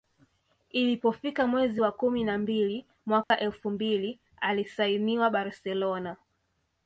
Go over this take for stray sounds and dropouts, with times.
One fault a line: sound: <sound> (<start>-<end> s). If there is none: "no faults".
sound: dropout (3.2-3.3 s)